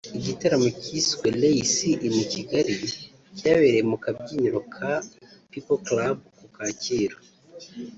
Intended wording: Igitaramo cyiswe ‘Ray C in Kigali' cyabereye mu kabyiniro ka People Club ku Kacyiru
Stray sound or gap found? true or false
false